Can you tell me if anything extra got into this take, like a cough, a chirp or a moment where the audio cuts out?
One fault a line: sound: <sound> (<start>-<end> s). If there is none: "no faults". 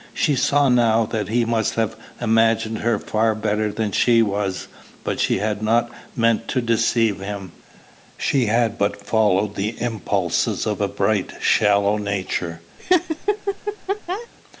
sound: laugh (12.8-14.3 s)